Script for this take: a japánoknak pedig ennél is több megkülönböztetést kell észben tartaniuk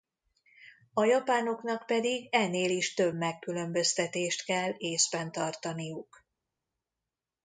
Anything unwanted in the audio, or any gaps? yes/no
no